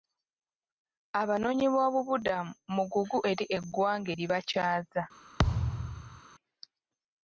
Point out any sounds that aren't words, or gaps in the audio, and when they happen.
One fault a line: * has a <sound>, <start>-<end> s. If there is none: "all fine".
* has a thud, 5.4-6.2 s